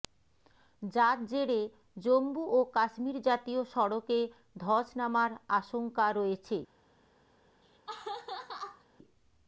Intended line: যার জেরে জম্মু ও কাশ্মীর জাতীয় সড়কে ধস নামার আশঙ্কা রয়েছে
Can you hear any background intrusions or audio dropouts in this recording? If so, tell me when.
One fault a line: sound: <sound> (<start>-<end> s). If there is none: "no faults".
sound: laugh (7.6-8.9 s)